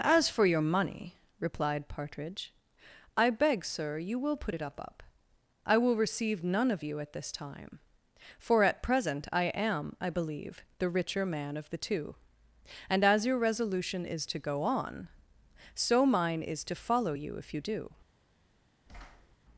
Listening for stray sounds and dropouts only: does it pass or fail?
fail